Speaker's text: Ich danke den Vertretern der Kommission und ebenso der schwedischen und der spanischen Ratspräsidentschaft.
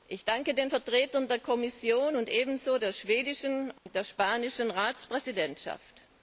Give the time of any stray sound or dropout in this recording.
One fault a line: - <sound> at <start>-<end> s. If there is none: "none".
- dropout at 3.8-3.9 s